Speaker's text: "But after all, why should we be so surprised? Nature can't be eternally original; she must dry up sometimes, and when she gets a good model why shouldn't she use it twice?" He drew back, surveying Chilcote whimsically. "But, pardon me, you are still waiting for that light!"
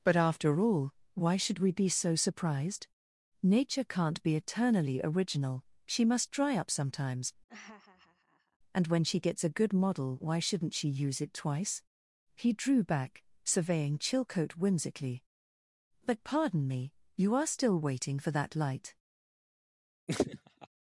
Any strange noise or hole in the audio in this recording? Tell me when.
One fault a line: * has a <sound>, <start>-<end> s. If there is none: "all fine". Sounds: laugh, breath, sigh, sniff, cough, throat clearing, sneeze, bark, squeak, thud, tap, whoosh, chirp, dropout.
* has a laugh, 7.5-8.6 s
* has a laugh, 20.1-20.7 s